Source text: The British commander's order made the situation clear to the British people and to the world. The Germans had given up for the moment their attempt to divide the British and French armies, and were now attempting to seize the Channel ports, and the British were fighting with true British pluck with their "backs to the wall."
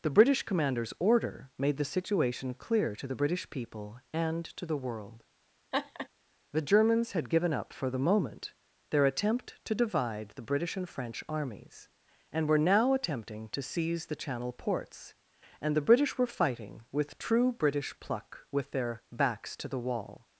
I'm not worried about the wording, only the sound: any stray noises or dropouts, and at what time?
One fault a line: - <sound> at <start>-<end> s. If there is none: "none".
- laugh at 5.7-6.1 s